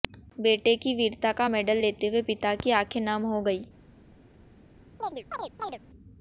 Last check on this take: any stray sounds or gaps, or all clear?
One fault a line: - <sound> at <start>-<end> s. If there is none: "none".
- chirp at 5.0-5.8 s